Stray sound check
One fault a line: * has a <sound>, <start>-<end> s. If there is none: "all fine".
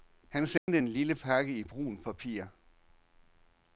* has a dropout, 0.6-0.7 s